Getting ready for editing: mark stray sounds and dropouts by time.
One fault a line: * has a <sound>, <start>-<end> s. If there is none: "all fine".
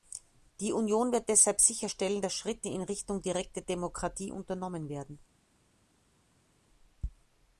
all fine